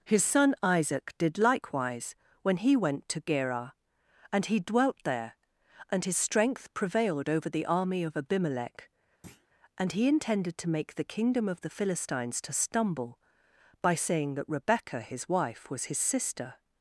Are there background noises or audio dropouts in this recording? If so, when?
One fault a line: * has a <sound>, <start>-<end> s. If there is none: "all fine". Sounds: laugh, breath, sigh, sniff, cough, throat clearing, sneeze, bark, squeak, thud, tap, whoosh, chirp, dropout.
* has a thud, 9.2-9.5 s